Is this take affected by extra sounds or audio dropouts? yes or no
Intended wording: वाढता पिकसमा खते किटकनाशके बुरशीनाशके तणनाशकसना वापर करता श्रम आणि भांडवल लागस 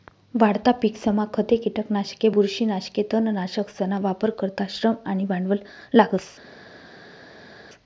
no